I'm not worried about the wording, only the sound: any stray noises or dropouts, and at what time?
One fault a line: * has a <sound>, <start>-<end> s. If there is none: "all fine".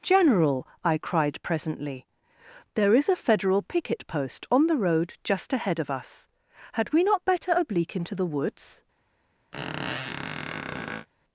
* has a squeak, 9.5-11.1 s